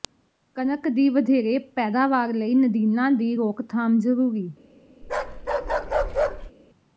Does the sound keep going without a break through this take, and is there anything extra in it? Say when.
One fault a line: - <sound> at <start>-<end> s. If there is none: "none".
- bark at 5.0-6.5 s